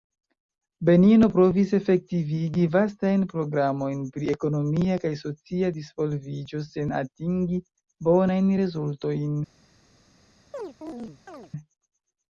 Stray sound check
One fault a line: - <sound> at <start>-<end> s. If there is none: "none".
- chirp at 10.5-11.5 s